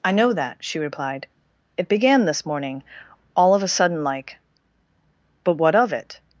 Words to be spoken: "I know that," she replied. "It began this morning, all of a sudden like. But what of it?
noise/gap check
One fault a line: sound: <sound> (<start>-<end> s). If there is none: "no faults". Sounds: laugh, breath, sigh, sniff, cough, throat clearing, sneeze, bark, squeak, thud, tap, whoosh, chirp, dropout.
no faults